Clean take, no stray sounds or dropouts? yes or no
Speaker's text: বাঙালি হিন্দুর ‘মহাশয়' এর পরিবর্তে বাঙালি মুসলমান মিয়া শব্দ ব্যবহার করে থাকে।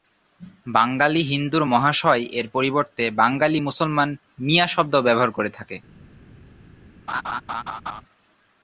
no